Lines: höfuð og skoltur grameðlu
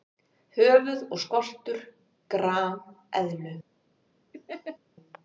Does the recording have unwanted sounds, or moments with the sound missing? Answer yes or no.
yes